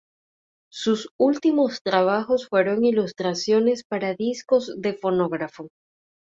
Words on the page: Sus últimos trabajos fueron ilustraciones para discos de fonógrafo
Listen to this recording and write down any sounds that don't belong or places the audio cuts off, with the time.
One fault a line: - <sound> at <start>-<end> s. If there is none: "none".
none